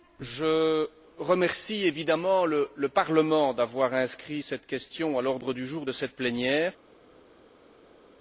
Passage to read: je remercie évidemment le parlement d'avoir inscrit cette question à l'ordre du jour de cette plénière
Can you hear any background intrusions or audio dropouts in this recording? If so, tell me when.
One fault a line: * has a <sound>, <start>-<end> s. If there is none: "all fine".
all fine